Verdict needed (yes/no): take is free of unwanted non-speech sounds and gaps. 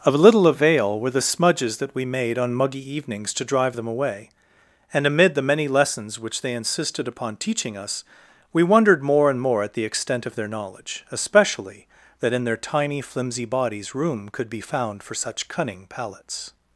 yes